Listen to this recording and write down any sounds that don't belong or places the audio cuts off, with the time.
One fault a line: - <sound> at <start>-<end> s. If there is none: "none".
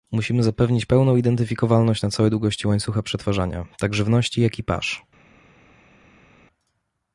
none